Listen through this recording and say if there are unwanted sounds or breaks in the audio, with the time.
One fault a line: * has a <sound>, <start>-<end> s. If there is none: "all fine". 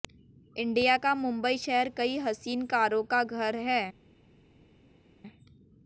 all fine